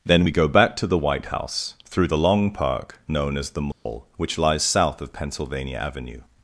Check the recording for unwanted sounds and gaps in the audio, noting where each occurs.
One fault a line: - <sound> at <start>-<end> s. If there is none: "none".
- dropout at 3.7-3.9 s